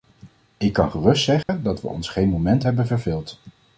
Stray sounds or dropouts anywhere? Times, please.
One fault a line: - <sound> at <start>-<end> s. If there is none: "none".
- dropout at 1.4-1.5 s